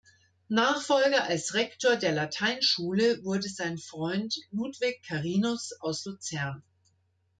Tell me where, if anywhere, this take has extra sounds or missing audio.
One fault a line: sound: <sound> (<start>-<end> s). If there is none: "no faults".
no faults